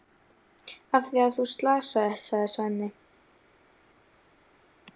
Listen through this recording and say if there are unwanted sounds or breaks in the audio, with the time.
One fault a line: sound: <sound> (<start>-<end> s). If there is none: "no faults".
no faults